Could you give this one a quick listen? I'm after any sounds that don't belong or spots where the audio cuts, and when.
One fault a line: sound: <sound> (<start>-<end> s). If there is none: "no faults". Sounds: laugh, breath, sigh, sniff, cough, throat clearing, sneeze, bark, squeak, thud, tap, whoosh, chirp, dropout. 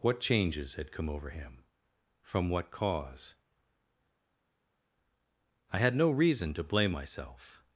no faults